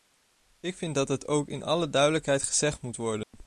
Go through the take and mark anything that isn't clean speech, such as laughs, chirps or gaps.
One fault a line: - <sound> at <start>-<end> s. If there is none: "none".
- dropout at 3.2-3.3 s